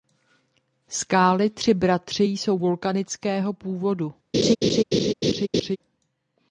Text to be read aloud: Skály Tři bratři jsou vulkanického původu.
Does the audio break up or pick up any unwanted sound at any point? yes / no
yes